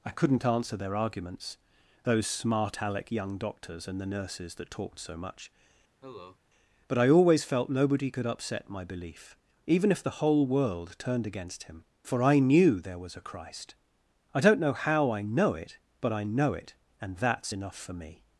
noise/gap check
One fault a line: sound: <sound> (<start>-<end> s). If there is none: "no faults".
sound: cough (6.0-6.4 s)